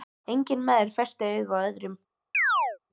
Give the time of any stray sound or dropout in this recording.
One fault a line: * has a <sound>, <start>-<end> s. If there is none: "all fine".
* has a chirp, 2.3-2.8 s